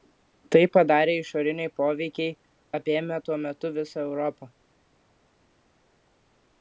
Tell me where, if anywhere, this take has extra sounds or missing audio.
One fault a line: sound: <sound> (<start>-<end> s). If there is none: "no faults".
no faults